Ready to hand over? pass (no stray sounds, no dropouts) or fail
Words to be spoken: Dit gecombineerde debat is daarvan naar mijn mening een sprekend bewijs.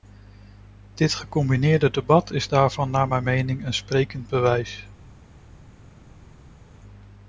pass